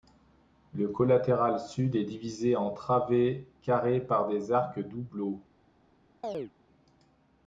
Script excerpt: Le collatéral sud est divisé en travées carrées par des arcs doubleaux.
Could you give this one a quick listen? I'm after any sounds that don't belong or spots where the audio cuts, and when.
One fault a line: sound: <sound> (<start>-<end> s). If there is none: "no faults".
sound: chirp (6.2-6.5 s)